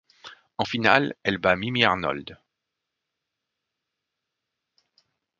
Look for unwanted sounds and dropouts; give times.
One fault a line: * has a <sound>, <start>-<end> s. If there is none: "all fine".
all fine